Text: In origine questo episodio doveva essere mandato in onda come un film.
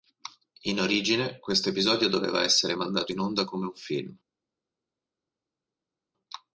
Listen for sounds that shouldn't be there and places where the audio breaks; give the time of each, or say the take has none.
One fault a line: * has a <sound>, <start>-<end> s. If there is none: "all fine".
all fine